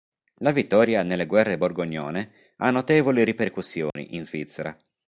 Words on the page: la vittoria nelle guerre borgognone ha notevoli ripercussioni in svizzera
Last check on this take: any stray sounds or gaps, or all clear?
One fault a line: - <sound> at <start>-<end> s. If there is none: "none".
- dropout at 3.9-4.0 s